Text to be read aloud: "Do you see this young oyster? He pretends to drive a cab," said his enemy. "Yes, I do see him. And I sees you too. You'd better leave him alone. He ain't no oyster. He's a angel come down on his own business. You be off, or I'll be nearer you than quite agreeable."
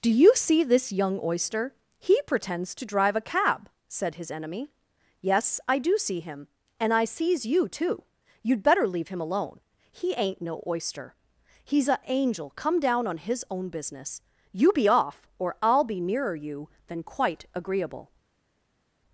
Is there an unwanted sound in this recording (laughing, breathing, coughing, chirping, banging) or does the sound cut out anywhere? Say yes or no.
no